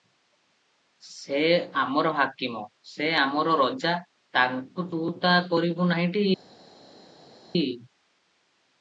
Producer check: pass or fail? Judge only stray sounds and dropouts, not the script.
pass